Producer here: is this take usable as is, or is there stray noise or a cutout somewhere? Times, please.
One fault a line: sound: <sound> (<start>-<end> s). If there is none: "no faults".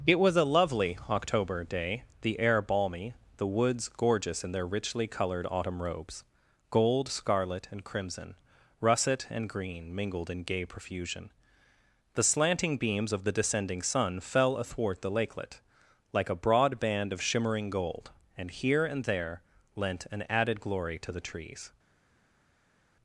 no faults